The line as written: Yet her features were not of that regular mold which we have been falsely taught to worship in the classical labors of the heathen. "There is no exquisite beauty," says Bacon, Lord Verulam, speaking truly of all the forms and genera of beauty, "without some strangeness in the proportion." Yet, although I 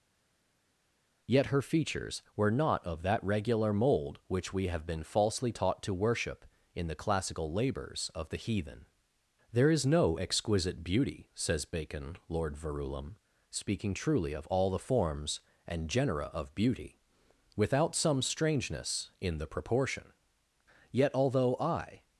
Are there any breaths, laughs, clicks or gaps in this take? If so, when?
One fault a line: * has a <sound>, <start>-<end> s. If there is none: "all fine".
all fine